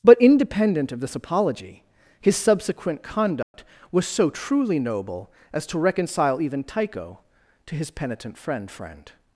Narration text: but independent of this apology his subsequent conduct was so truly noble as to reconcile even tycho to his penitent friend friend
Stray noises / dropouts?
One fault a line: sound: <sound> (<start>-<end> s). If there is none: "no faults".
sound: dropout (3.4-3.5 s)